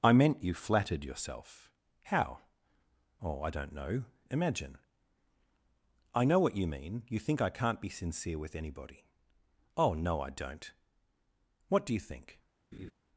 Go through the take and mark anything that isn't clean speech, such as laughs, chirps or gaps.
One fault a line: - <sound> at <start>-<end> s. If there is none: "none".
- laugh at 12.7-12.9 s